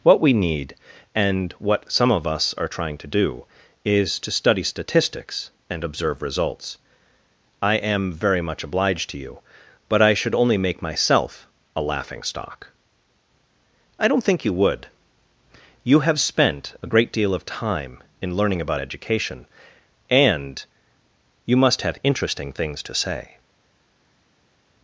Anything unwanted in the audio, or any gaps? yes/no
no